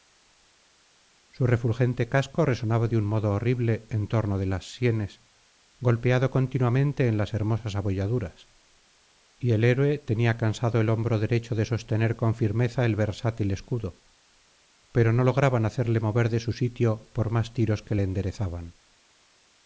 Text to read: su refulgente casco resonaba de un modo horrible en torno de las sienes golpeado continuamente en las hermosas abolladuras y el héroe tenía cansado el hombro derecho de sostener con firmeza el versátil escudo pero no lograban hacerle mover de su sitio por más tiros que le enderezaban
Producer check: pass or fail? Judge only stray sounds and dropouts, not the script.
pass